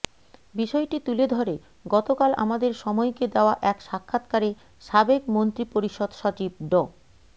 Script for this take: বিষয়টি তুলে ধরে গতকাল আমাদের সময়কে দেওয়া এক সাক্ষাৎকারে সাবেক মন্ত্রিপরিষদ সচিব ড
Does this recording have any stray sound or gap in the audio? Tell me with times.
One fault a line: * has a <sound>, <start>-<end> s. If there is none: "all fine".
all fine